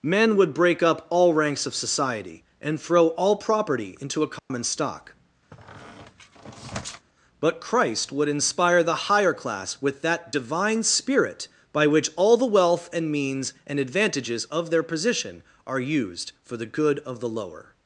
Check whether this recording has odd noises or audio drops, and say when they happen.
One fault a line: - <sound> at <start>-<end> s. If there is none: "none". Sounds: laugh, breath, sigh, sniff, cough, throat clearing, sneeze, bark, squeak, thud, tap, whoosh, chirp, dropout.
- dropout at 4.4-4.5 s
- squeak at 5.5-7.1 s